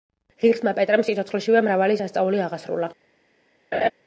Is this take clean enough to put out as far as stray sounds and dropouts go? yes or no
no